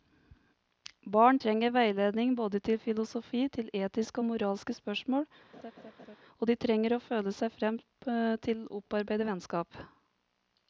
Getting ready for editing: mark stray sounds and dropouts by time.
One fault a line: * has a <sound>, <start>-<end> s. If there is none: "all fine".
* has a laugh, 5.5-6.2 s